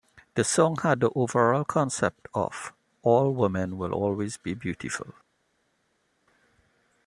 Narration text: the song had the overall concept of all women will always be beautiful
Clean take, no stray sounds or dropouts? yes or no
yes